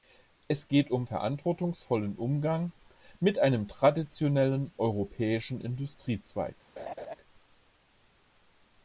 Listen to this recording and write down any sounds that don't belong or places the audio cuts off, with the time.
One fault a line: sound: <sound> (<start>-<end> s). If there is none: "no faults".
sound: laugh (6.8-7.1 s)